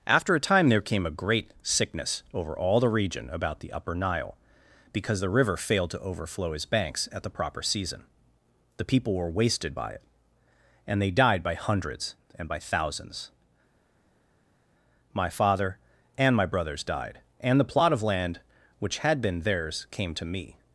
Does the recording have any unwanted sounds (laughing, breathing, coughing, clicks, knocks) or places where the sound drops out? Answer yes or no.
no